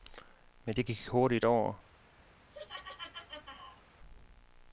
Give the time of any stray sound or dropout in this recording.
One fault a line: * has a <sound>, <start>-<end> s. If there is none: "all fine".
* has a laugh, 2.5-3.8 s